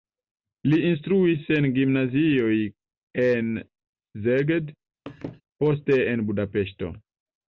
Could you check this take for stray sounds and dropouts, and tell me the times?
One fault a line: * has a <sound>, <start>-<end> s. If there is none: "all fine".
* has a laugh, 5.1-5.4 s